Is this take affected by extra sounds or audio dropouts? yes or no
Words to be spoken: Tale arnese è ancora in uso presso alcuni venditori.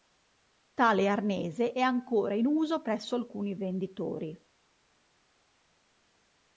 no